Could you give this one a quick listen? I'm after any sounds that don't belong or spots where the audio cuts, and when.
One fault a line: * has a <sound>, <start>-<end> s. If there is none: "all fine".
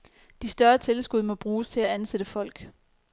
all fine